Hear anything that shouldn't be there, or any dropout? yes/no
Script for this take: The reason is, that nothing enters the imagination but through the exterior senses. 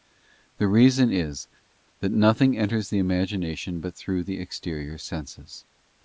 no